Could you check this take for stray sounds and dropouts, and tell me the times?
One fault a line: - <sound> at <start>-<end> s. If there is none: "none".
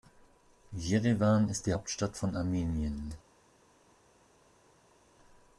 none